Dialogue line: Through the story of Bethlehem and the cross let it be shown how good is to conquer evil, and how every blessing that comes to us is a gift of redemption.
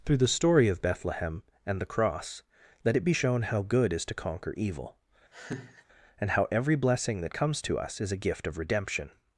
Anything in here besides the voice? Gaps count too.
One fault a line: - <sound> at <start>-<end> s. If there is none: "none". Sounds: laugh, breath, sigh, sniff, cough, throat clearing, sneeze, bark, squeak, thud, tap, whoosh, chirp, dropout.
- laugh at 5.3-5.9 s